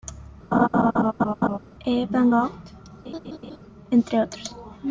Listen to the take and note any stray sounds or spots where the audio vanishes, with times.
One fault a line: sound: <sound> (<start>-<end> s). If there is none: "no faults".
sound: laugh (0.5-1.6 s)
sound: laugh (3.0-3.6 s)